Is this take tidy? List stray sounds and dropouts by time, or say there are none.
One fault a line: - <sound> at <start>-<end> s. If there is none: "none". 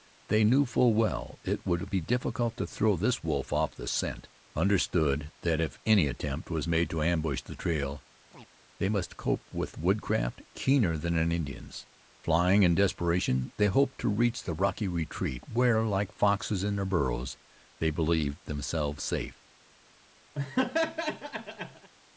- chirp at 8.3-8.5 s
- laugh at 20.4-21.9 s